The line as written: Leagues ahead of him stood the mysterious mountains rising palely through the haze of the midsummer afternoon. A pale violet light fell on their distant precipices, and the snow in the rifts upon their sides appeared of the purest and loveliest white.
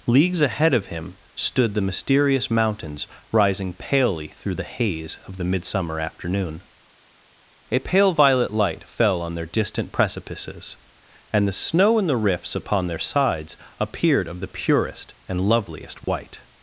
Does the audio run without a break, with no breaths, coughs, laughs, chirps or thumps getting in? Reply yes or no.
no